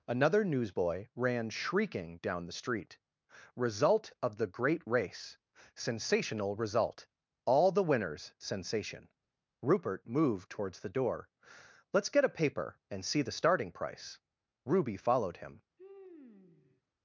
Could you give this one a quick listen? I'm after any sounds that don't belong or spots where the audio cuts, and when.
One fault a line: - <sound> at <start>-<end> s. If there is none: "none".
- sigh at 15.8-16.8 s